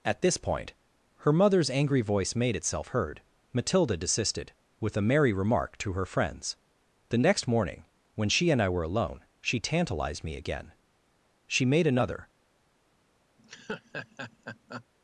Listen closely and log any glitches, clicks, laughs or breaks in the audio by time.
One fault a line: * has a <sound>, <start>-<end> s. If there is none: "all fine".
* has a laugh, 13.4-14.9 s